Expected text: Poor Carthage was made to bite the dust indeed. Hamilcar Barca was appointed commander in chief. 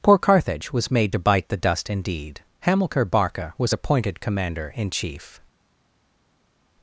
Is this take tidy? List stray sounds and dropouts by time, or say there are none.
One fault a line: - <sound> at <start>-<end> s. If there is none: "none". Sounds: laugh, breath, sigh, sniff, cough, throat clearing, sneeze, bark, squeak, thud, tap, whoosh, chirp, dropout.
none